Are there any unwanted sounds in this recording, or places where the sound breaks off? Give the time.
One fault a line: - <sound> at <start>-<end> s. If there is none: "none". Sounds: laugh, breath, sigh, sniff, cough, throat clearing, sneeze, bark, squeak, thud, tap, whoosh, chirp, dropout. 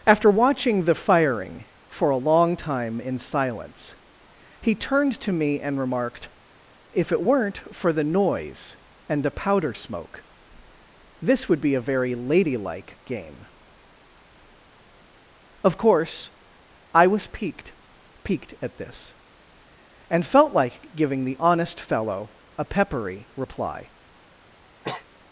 - sneeze at 24.8-25.1 s